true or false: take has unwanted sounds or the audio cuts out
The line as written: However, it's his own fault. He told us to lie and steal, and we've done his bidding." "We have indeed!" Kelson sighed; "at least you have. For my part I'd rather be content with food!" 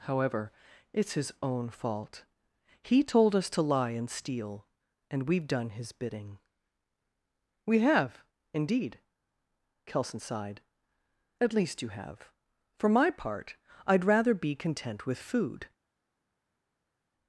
false